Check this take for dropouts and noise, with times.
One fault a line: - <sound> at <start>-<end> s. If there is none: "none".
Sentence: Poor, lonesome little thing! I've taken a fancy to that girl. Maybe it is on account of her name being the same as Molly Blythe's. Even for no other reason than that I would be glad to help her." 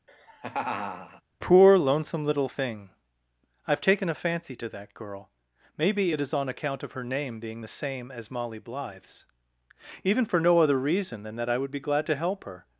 - laugh at 0.1-1.2 s